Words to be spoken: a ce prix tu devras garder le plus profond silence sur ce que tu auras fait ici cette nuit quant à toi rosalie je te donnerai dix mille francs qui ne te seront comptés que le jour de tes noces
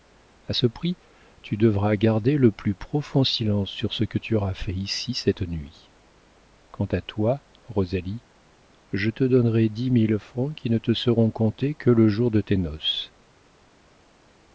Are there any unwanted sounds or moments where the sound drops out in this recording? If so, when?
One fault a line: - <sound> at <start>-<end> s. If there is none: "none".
none